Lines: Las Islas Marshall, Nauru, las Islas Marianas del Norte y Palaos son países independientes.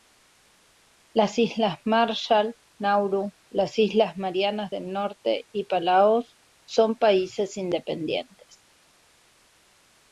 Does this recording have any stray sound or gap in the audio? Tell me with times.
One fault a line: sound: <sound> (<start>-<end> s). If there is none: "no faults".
no faults